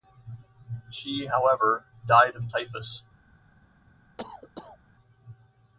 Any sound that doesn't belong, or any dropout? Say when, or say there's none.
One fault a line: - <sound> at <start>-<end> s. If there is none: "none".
- cough at 4.2-4.8 s